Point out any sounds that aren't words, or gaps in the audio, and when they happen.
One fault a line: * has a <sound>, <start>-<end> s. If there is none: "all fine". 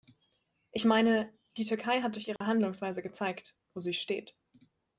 * has a dropout, 2.4-2.4 s